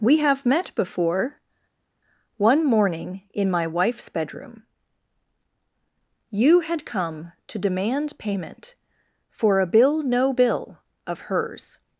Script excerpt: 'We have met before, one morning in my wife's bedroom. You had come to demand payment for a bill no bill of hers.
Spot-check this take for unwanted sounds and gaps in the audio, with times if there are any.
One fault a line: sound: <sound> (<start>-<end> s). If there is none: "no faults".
no faults